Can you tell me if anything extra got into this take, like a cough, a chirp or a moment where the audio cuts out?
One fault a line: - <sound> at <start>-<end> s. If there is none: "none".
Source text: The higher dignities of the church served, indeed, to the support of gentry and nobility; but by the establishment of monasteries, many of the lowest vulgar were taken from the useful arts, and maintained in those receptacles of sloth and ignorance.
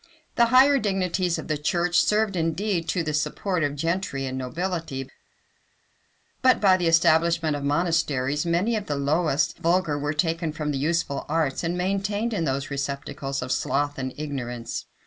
none